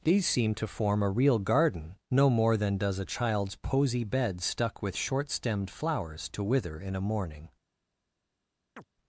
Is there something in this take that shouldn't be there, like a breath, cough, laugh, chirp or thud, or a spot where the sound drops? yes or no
yes